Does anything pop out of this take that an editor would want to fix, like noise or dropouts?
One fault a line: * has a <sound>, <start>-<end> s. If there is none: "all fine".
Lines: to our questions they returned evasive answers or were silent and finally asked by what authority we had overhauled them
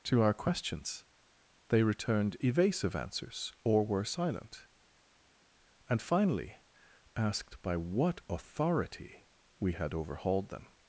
all fine